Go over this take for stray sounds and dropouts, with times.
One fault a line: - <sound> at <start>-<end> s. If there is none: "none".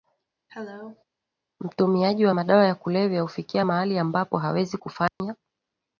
- cough at 0.5-1.0 s
- dropout at 5.1-5.2 s